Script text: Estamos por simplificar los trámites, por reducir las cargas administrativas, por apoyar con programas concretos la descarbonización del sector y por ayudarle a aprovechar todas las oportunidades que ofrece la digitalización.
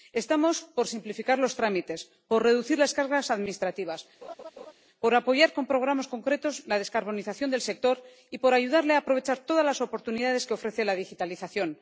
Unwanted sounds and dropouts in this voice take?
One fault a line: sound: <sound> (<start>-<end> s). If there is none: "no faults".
sound: laugh (4.2-4.7 s)